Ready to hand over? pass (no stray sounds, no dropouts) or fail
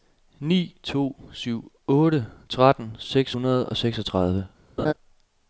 fail